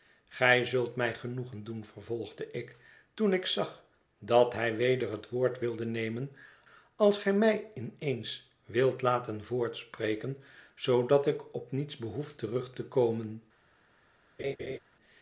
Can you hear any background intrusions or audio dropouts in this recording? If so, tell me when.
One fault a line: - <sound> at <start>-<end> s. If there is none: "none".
- laugh at 14.4-14.8 s